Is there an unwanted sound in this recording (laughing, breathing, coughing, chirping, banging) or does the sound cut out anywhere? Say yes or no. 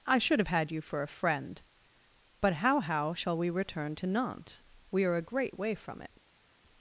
no